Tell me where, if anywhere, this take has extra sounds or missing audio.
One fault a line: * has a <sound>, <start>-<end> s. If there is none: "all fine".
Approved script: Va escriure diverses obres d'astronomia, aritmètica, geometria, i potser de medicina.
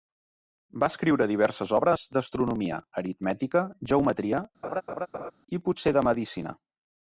* has a laugh, 4.6-5.3 s